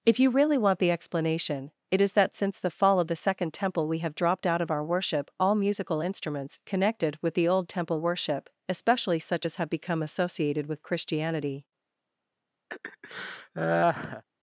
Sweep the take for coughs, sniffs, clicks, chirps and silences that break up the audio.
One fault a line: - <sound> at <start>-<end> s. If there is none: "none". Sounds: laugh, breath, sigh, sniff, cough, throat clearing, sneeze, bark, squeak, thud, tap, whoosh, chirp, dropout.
- laugh at 12.7-14.2 s